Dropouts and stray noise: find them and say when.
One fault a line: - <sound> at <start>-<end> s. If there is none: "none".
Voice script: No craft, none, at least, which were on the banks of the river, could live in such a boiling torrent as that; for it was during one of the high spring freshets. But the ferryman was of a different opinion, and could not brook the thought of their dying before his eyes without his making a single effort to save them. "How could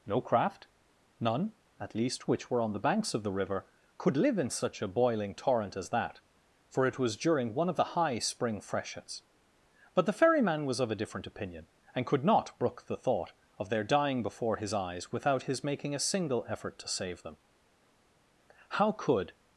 none